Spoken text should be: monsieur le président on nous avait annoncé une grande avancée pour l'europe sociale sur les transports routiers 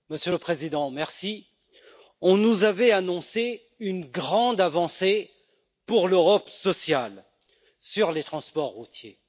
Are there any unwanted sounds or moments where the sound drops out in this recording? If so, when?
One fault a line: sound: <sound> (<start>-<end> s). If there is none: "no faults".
no faults